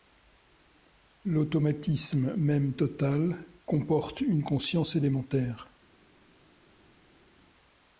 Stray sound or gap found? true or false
false